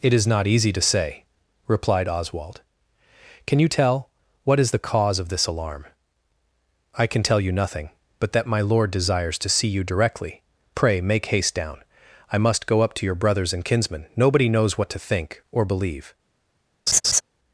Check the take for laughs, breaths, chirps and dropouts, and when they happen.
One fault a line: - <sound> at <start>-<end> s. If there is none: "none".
- laugh at 16.9-17.2 s